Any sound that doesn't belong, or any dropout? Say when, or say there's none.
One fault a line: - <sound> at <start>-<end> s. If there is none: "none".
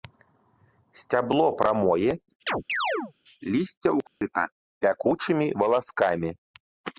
- chirp at 2.5-3.1 s
- dropout at 4.1-4.2 s